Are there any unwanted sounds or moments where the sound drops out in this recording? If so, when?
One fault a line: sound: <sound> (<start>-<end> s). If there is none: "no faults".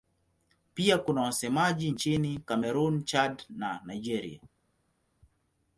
no faults